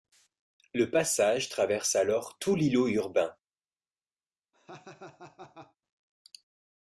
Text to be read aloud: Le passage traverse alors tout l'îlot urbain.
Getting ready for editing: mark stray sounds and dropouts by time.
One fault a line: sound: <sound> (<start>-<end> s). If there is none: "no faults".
sound: laugh (4.5-5.8 s)